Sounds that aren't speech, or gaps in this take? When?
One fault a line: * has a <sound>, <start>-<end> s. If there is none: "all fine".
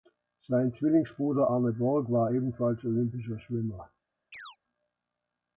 * has a chirp, 4.3-4.6 s